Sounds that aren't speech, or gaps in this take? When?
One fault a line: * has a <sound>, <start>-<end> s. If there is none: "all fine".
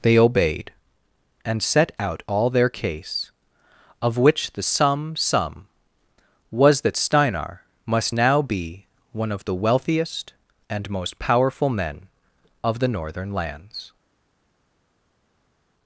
all fine